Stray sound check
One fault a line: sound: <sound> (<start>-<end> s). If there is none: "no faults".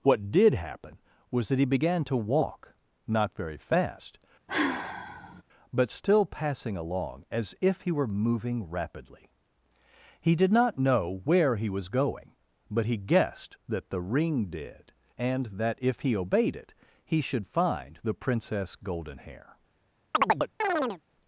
sound: sigh (4.5-5.4 s)
sound: chirp (20.1-21.0 s)